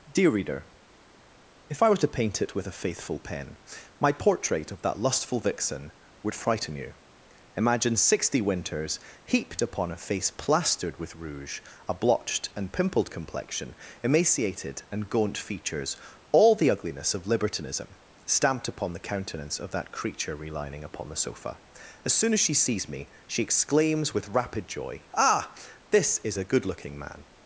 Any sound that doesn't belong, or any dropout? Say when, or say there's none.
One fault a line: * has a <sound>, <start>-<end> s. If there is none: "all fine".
all fine